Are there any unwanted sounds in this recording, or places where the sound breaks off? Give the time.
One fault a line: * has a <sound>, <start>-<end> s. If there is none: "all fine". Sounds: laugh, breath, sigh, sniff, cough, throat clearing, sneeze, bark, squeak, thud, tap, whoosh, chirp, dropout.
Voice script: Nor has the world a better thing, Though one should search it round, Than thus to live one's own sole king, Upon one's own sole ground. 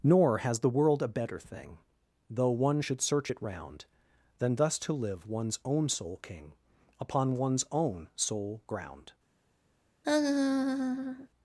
* has a laugh, 10.0-11.3 s